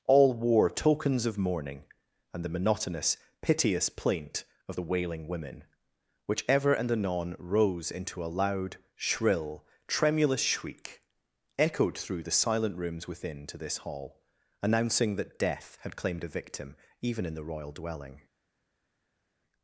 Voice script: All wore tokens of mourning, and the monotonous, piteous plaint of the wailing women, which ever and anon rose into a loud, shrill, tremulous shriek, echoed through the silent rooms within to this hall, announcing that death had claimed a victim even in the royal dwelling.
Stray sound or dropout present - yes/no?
no